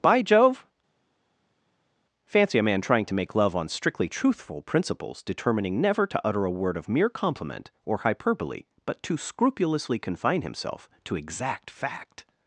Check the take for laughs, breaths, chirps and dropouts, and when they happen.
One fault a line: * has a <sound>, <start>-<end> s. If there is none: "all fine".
all fine